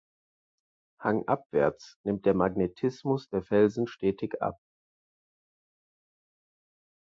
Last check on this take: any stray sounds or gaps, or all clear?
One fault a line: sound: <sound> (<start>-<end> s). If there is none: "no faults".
no faults